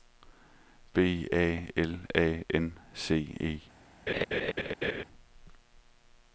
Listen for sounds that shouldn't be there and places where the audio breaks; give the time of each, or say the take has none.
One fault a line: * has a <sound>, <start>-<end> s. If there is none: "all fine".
* has a laugh, 4.1-5.0 s